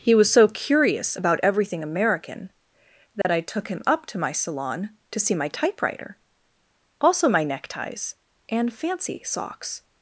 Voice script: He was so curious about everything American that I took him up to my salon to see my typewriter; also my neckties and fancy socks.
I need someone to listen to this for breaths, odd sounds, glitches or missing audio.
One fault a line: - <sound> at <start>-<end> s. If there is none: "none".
- dropout at 3.2-3.2 s